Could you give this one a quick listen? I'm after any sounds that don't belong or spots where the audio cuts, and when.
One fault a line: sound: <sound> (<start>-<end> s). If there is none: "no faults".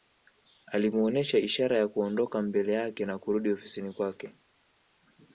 no faults